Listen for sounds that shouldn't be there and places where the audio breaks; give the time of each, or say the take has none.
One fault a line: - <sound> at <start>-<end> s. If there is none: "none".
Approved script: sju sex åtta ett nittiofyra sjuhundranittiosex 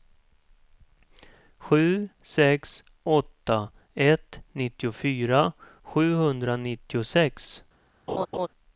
- laugh at 8.1-8.5 s